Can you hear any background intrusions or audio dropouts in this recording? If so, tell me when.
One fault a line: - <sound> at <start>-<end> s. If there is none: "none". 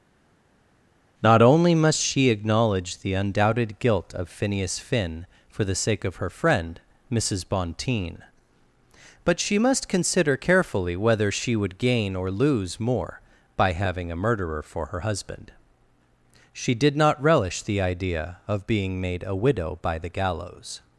none